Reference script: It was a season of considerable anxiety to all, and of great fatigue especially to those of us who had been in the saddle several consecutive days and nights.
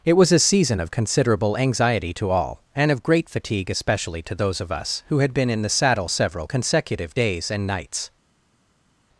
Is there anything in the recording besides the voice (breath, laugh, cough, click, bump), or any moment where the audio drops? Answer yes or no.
no